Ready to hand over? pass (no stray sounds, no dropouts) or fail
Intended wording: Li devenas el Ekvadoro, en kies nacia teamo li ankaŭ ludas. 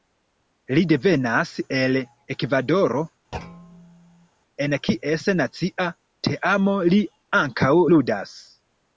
fail